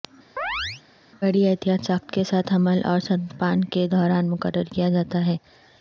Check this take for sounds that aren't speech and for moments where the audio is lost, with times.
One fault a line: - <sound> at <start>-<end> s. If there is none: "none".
- chirp at 0.4-0.8 s